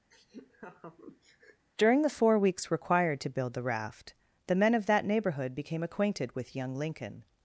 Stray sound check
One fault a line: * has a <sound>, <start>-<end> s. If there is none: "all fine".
* has a laugh, 0.1-1.7 s